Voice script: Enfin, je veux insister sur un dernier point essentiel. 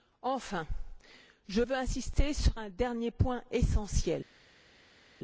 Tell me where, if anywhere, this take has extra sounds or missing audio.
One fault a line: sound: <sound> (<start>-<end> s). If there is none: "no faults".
no faults